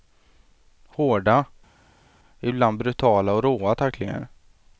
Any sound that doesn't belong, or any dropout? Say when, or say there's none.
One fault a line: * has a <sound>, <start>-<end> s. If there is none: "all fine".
all fine